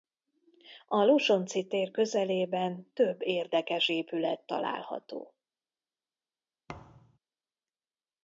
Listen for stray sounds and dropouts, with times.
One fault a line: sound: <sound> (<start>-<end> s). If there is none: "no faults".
sound: thud (6.7-7.2 s)